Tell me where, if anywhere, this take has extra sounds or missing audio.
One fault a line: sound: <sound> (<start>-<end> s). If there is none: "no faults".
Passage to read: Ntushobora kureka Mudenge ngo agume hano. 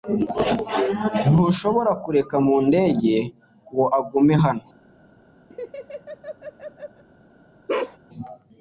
sound: laugh (5.5-7.0 s)
sound: bark (7.7-8.0 s)